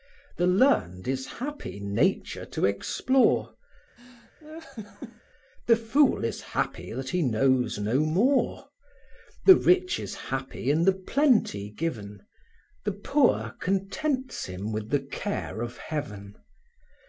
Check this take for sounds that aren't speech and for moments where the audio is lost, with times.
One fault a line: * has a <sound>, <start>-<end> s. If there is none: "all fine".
* has a laugh, 4.0-5.2 s